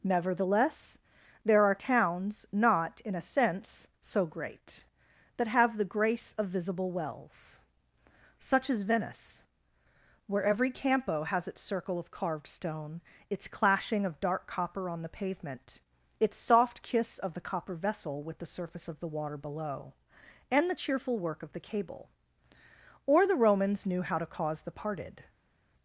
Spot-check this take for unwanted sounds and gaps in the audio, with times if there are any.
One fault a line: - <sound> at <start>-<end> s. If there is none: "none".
none